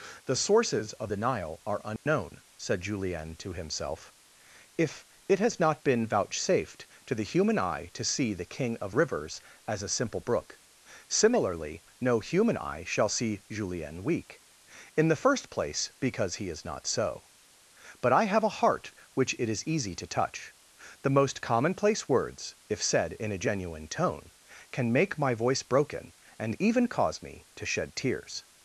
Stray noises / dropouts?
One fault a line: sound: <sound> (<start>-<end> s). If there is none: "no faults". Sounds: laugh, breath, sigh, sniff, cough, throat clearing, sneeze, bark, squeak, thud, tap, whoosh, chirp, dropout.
sound: dropout (2.0-2.1 s)